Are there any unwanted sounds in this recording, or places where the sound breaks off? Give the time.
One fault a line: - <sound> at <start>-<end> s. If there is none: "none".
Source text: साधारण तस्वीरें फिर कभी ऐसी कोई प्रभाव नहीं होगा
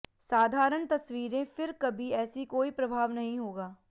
none